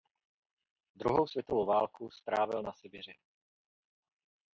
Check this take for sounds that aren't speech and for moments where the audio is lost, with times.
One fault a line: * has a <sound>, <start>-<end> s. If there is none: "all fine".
all fine